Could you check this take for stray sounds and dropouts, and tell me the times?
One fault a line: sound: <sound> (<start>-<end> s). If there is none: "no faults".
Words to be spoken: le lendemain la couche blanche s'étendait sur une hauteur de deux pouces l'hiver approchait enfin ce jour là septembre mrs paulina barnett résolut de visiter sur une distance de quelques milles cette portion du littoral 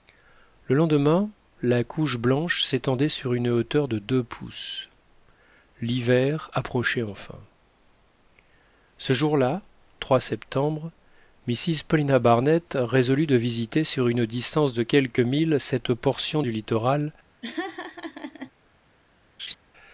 sound: laugh (17.4-18.5 s)
sound: laugh (19.4-19.6 s)